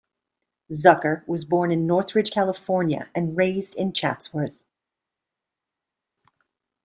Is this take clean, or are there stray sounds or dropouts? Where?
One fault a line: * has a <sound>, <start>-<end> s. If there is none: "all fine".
all fine